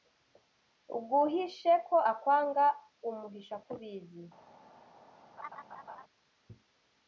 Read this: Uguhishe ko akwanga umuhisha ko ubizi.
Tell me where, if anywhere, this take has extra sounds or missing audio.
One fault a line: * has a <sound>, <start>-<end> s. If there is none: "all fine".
* has a laugh, 5.4-6.0 s